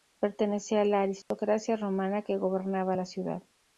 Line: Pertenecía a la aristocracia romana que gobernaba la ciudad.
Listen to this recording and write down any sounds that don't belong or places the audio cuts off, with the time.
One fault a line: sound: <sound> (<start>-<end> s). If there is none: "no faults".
sound: dropout (1.2-1.3 s)